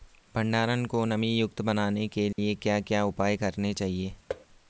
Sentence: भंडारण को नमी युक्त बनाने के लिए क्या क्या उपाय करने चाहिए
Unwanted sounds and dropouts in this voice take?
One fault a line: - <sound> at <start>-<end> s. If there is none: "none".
- dropout at 2.3-2.4 s
- thud at 4.3-4.5 s